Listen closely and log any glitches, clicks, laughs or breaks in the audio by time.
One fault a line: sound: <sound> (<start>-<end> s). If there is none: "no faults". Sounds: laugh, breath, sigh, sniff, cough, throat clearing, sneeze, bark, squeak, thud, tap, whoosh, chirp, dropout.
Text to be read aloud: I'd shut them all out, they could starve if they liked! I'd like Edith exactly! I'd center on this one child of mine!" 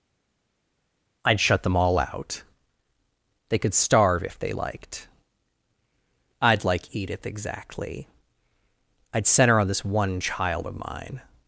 no faults